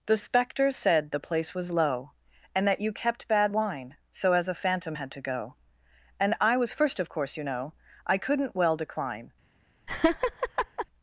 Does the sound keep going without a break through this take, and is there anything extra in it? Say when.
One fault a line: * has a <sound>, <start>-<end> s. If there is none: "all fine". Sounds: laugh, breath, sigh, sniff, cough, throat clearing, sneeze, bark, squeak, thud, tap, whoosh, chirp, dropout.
* has a laugh, 9.9-10.9 s